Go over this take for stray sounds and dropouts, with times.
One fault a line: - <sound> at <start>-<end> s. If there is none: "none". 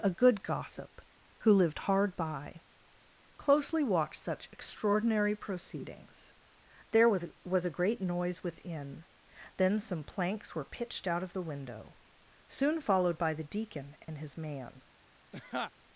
- dropout at 14.0-14.1 s
- laugh at 15.3-15.7 s